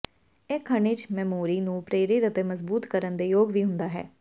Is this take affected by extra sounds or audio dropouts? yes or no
no